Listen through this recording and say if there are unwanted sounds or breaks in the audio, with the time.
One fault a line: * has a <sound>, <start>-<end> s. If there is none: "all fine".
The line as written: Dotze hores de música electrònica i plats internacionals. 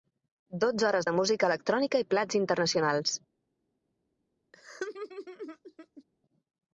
* has a laugh, 4.5-6.0 s